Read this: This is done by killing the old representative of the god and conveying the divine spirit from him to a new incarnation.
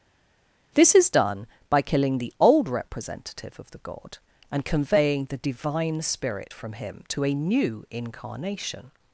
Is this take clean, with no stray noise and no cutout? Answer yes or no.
yes